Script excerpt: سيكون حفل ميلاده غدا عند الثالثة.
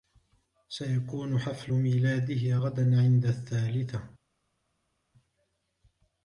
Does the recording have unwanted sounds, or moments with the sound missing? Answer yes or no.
no